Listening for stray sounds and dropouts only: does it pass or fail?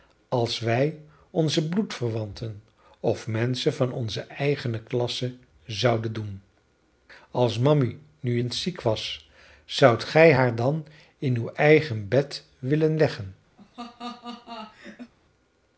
fail